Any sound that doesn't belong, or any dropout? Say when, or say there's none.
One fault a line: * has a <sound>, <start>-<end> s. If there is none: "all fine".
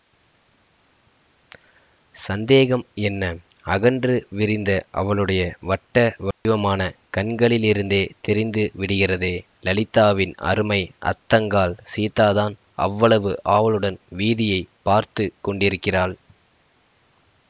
* has a dropout, 6.3-6.5 s